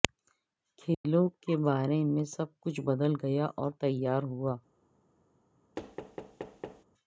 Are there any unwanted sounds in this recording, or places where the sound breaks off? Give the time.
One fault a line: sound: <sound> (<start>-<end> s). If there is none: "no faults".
sound: dropout (0.9-1.0 s)
sound: thud (5.8-6.8 s)